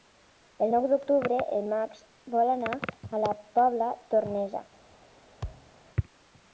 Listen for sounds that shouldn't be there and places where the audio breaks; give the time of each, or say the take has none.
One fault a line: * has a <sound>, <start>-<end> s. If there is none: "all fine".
* has a thud, 5.4-5.7 s